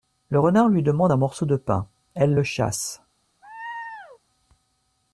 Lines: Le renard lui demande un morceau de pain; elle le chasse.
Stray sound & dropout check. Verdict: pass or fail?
fail